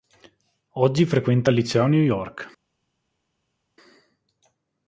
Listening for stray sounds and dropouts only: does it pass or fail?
pass